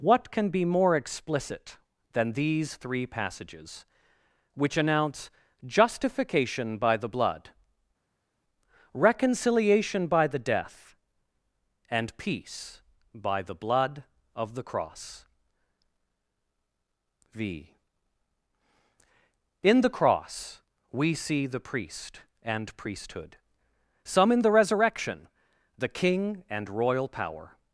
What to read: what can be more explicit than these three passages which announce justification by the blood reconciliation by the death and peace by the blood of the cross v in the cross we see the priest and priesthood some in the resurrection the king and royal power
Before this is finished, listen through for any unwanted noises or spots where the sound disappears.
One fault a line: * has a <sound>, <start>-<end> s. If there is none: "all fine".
all fine